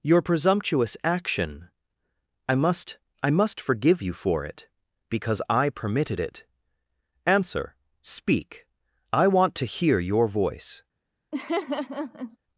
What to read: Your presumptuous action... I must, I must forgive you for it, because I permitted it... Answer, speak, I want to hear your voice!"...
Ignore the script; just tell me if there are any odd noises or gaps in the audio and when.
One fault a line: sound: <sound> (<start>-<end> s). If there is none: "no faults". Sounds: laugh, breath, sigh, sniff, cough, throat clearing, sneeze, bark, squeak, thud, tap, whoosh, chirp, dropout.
sound: laugh (11.3-12.4 s)